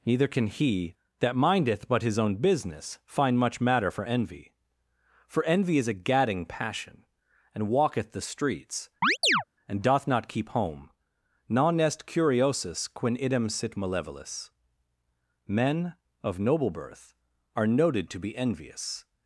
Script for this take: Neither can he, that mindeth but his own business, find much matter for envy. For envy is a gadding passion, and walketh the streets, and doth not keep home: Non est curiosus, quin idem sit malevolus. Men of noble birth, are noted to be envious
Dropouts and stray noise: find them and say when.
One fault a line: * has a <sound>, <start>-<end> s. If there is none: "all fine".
* has a chirp, 9.0-9.4 s